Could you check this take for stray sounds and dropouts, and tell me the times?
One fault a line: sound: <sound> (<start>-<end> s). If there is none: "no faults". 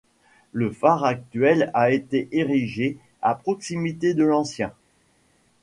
no faults